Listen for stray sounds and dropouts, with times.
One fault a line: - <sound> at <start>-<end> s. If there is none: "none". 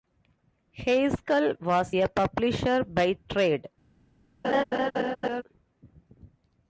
- laugh at 4.4-5.4 s